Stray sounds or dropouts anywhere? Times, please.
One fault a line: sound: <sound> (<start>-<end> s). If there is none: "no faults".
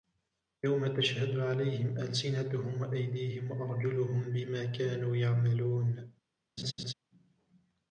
sound: laugh (6.6-6.9 s)